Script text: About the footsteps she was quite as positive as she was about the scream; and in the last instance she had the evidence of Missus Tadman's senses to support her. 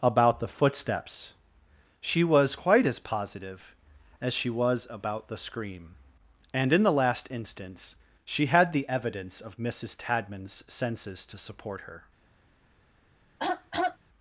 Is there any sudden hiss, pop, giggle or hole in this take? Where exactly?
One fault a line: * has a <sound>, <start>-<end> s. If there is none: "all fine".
* has a throat clearing, 13.4-14.0 s